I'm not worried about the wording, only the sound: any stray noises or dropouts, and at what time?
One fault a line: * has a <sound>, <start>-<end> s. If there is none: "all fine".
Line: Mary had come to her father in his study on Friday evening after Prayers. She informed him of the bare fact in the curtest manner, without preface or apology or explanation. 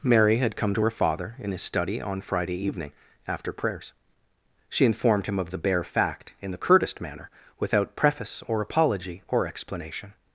all fine